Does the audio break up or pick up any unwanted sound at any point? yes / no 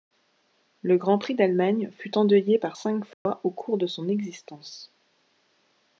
yes